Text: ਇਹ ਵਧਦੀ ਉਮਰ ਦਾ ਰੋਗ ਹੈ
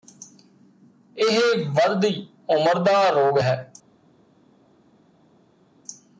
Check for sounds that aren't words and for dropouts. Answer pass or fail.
pass